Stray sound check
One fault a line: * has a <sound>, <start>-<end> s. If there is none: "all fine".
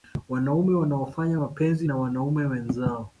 all fine